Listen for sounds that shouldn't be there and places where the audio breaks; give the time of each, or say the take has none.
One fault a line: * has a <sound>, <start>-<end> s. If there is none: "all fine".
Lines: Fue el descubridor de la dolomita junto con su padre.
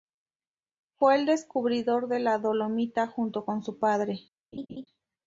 * has a laugh, 4.5-4.9 s